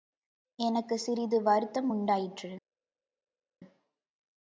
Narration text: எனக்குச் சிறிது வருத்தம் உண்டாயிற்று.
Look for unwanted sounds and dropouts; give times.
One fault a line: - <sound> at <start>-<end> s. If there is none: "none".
none